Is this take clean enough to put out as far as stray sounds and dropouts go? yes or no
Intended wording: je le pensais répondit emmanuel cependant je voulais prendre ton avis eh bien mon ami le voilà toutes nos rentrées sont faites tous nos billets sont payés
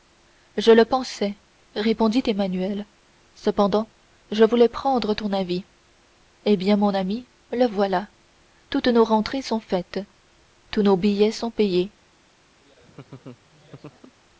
no